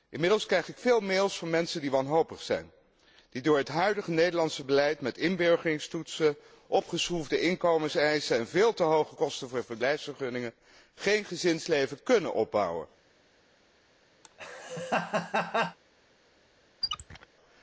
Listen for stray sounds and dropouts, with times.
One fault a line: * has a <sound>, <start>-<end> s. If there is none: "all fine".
* has a laugh, 14.2-15.8 s
* has a squeak, 16.8-17.3 s